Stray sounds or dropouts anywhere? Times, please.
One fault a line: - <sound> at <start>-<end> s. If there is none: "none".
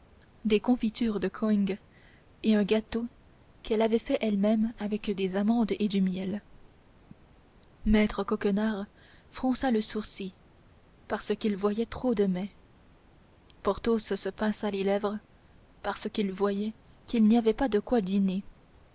none